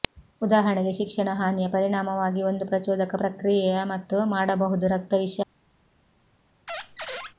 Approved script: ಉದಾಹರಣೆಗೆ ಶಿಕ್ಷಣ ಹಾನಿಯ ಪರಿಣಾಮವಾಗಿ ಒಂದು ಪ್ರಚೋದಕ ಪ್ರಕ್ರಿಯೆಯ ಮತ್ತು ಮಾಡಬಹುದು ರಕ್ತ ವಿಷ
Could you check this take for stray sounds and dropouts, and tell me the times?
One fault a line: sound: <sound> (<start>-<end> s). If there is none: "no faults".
sound: squeak (6.7-7.3 s)